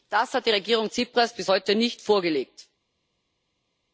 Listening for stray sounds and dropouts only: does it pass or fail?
pass